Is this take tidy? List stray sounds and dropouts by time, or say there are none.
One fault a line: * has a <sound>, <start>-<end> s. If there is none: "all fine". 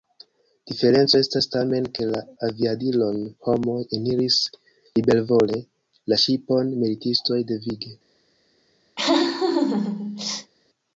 * has a laugh, 9.0-10.5 s